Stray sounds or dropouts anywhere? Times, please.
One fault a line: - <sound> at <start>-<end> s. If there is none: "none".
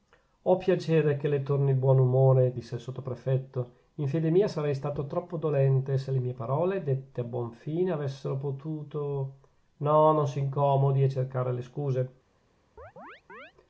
- chirp at 12.8-13.5 s